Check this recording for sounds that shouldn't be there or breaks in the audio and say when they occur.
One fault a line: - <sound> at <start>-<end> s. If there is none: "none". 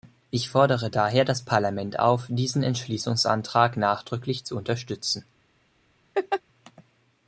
- laugh at 6.1-6.4 s